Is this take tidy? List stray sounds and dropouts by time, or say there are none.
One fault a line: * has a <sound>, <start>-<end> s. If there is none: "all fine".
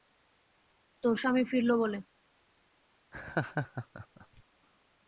* has a laugh, 3.1-4.4 s